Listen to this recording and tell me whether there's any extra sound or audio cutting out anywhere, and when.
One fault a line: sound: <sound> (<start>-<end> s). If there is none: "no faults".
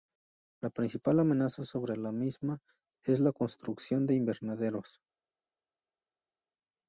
no faults